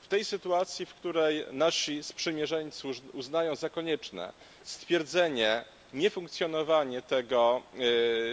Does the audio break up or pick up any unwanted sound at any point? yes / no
no